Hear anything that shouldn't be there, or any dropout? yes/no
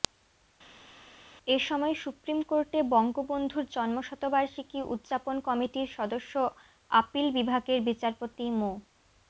no